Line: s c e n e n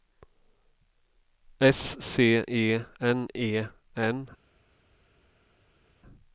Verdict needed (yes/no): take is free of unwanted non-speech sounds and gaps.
yes